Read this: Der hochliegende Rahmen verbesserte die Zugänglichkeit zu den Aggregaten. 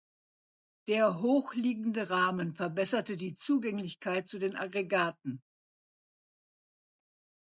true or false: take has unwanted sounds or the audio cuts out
false